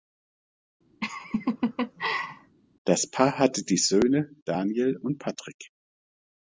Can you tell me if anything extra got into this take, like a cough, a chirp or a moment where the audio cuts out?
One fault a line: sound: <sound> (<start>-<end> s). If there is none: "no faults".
sound: laugh (1.0-2.6 s)